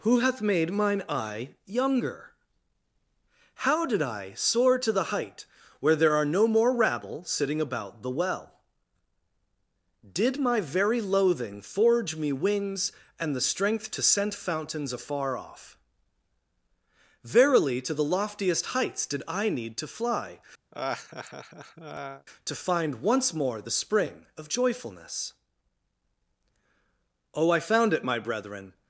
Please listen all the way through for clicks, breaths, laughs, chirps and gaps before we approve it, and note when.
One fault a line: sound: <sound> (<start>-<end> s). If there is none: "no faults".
sound: laugh (20.7-22.3 s)